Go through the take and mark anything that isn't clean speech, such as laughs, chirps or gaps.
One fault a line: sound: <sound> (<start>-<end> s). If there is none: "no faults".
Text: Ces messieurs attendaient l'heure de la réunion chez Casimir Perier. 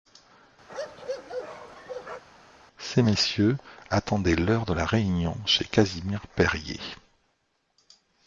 sound: bark (0.7-2.2 s)